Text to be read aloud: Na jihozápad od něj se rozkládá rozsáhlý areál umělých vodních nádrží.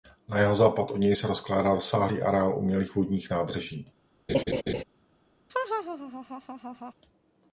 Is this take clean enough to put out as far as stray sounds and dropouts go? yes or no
no